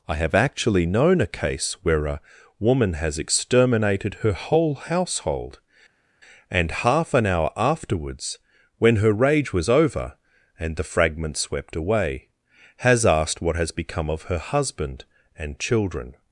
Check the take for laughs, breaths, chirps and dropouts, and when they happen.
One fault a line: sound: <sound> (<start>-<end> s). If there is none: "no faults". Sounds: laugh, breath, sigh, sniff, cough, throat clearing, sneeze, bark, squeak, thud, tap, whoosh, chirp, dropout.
no faults